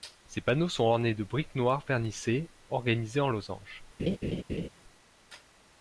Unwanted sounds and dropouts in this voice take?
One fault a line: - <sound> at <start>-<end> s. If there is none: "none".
- laugh at 4.0-4.7 s